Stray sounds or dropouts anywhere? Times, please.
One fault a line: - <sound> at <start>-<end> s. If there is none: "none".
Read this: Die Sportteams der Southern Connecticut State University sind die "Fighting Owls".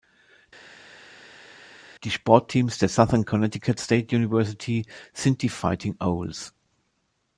none